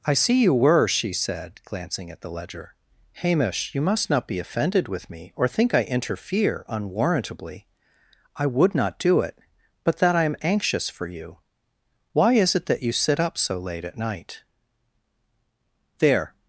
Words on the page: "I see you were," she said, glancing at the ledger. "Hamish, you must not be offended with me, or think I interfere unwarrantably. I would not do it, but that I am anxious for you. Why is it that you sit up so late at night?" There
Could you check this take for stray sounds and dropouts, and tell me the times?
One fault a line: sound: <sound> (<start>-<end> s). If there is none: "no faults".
no faults